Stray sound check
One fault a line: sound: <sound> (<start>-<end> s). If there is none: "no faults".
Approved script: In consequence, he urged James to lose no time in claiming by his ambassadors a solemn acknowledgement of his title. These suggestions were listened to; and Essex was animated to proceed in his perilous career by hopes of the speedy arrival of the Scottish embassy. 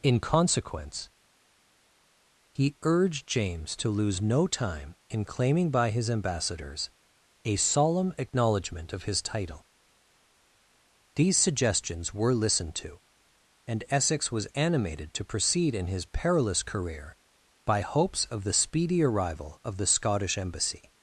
no faults